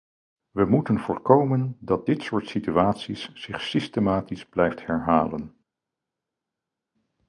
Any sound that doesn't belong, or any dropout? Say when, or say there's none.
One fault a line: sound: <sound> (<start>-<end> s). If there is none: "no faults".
no faults